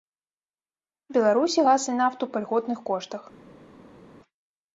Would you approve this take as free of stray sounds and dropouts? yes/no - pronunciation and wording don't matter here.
yes